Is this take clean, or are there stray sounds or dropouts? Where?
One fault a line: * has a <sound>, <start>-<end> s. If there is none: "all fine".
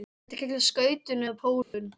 * has a dropout, 1.6-1.7 s